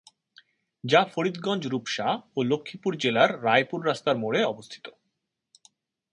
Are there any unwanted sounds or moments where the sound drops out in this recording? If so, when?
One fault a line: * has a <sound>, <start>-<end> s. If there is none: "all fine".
all fine